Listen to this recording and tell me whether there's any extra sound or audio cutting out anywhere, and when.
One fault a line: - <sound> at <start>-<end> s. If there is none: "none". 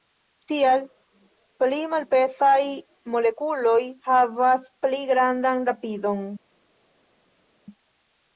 none